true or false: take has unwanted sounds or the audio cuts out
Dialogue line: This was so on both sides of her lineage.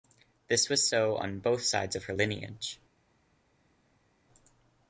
false